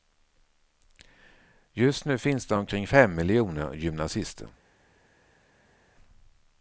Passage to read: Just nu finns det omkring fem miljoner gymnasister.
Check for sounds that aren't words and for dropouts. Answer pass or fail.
pass